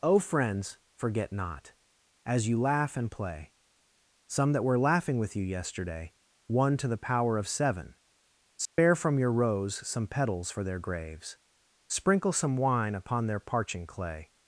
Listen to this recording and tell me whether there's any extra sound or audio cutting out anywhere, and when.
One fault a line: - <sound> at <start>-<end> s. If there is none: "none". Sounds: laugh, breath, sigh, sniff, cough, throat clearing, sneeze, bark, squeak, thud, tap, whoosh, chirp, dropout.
- dropout at 8.7-8.8 s